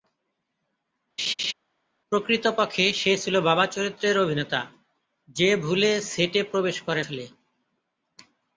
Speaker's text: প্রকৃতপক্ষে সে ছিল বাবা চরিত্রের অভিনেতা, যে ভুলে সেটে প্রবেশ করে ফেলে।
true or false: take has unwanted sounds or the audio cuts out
true